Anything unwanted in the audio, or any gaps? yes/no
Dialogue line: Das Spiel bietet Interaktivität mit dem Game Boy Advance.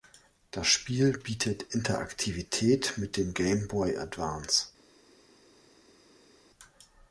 no